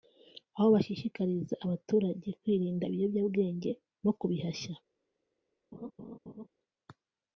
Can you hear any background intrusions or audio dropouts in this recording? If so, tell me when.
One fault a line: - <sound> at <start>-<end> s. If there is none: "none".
- laugh at 5.7-6.5 s